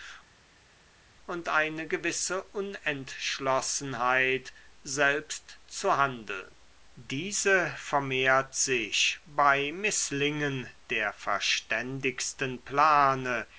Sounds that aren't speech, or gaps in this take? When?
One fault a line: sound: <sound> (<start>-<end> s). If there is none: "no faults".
no faults